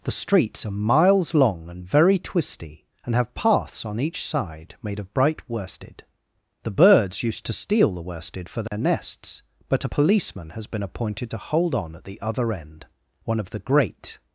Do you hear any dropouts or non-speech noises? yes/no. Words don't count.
yes